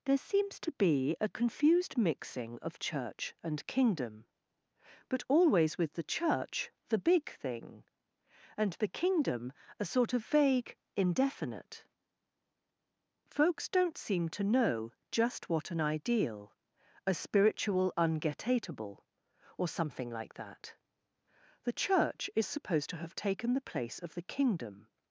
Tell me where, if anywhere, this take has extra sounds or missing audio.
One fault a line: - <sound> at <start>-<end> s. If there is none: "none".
none